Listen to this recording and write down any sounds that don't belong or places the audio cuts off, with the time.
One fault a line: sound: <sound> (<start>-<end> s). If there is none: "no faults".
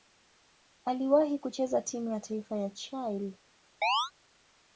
sound: chirp (3.8-4.1 s)